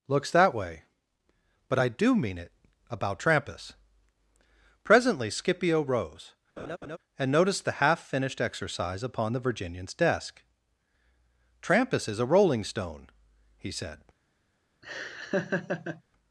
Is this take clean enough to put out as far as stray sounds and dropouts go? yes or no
no